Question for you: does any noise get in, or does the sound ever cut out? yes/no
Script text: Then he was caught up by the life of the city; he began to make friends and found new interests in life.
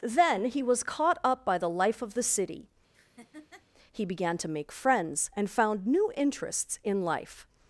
yes